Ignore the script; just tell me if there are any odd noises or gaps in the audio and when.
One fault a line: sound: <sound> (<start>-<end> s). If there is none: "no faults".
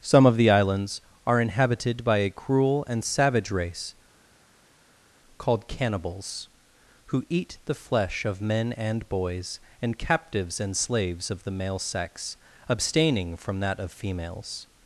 no faults